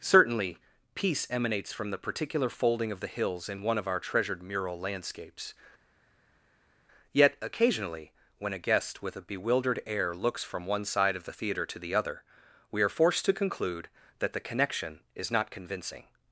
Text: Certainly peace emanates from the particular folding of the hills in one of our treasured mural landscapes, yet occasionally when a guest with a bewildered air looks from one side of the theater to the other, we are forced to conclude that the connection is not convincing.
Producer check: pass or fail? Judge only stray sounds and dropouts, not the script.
pass